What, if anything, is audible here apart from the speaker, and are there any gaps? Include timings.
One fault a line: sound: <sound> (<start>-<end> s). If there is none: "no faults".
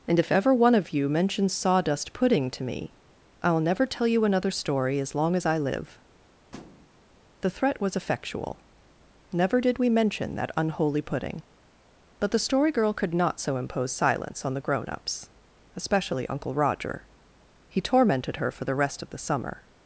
sound: thud (6.5-6.9 s)